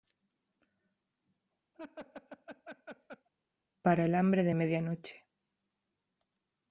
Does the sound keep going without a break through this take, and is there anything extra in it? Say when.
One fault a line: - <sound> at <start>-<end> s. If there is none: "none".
- laugh at 1.7-3.3 s